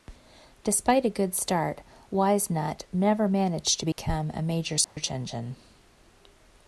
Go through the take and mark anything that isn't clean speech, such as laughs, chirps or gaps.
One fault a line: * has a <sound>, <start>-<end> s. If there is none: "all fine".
* has a dropout, 3.9-4.0 s
* has a dropout, 4.8-5.0 s